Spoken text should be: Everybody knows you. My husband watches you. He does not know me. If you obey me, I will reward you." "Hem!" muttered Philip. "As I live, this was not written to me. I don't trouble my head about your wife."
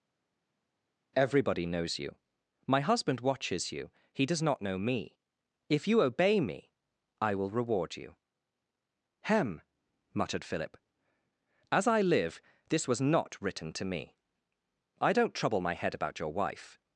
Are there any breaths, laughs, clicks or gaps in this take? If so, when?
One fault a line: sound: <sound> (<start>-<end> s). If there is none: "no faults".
no faults